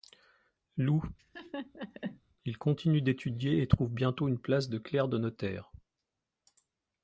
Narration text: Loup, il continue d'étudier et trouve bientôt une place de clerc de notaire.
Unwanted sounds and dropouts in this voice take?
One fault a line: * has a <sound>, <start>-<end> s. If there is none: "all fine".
* has a laugh, 1.2-2.2 s